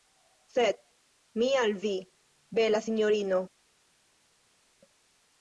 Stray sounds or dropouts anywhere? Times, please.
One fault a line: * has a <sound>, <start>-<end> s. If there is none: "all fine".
all fine